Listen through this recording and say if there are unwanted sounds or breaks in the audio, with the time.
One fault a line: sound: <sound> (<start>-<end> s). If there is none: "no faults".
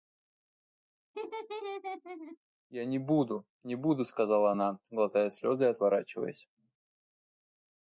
sound: laugh (1.1-2.4 s)